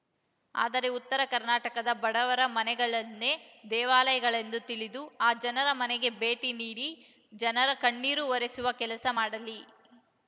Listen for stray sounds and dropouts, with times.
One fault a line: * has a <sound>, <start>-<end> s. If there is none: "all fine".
all fine